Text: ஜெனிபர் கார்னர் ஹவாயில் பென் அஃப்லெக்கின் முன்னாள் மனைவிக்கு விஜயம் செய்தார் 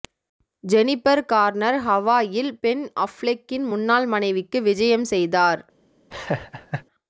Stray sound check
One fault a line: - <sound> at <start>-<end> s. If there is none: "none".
- laugh at 6.1-6.9 s